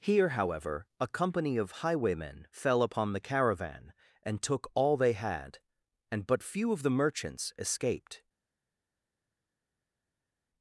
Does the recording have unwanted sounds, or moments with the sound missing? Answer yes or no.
no